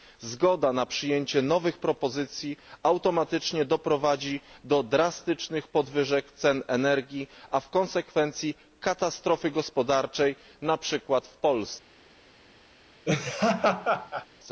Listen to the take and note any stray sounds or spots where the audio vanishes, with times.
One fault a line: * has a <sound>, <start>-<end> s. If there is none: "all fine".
* has a laugh, 13.0-14.3 s